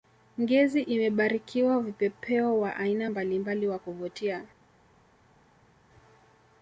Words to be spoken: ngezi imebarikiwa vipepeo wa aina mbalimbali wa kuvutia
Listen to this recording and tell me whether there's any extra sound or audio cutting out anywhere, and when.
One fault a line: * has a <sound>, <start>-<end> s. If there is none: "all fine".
all fine